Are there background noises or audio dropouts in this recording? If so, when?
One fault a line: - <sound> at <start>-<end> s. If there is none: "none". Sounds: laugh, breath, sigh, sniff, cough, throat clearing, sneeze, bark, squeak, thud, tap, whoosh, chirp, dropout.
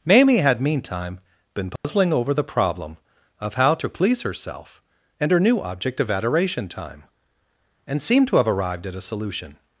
- dropout at 1.8-1.8 s